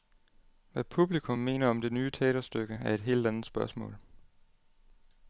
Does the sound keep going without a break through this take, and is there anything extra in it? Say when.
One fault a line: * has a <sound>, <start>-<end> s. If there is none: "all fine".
all fine